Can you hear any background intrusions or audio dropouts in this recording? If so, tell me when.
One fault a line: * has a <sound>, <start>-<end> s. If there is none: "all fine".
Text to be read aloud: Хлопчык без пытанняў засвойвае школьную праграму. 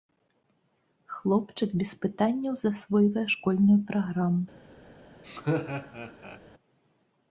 * has a laugh, 5.2-6.4 s